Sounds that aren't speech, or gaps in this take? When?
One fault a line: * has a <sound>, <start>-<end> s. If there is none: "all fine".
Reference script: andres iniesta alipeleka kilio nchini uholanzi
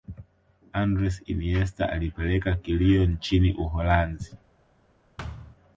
* has a thud, 5.2-5.6 s